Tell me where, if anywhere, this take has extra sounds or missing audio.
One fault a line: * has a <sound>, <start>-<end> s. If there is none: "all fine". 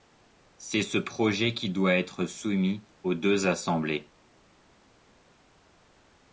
all fine